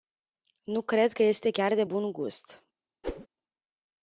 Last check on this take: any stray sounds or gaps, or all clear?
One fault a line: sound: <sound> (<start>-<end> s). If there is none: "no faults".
sound: whoosh (3.0-3.3 s)